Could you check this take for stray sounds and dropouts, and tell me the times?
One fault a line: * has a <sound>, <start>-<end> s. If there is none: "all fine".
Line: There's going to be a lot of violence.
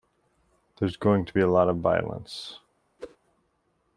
* has a whoosh, 3.0-3.2 s